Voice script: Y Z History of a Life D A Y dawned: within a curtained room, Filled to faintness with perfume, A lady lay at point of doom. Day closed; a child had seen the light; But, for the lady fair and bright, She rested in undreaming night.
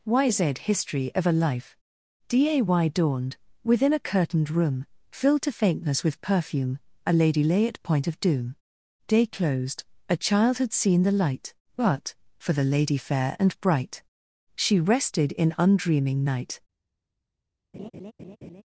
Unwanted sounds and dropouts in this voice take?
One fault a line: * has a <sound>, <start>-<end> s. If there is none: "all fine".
* has a laugh, 17.7-18.6 s